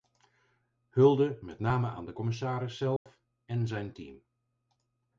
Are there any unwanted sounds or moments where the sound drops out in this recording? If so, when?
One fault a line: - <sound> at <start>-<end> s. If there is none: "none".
- dropout at 3.0-3.1 s